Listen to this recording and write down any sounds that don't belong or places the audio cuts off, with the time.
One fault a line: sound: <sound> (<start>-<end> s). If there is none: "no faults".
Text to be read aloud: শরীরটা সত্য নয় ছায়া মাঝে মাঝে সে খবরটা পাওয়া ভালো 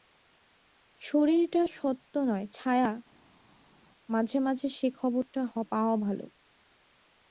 no faults